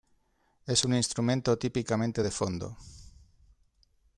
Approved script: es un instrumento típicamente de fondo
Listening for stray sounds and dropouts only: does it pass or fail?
pass